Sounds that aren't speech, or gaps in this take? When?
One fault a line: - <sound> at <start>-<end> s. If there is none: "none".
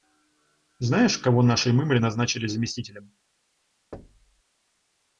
- thud at 3.9-4.4 s